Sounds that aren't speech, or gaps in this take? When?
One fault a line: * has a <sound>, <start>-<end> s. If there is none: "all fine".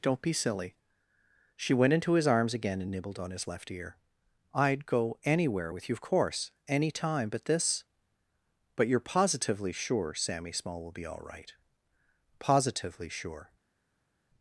all fine